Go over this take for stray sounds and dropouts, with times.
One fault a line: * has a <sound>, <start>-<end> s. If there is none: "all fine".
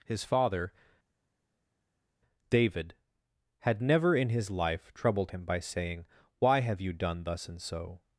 all fine